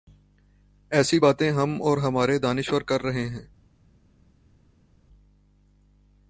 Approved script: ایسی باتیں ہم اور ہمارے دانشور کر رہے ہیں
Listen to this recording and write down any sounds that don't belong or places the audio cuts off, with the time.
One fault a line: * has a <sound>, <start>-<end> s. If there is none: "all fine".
all fine